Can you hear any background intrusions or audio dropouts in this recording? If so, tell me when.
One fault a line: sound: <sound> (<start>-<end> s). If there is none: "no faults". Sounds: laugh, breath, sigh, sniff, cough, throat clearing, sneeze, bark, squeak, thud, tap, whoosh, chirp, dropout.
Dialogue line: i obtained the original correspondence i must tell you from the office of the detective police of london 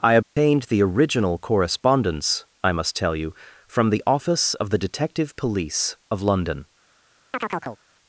sound: dropout (0.2-0.4 s)
sound: chirp (7.3-7.8 s)